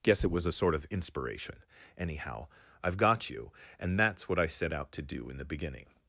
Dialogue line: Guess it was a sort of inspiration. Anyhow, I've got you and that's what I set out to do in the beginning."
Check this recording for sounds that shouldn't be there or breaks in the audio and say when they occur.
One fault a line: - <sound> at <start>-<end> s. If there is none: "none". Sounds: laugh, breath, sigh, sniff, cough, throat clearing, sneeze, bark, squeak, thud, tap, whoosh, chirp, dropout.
none